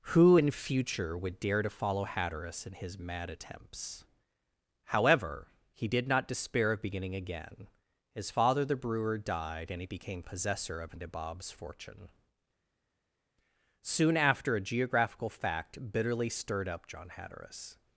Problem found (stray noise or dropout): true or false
false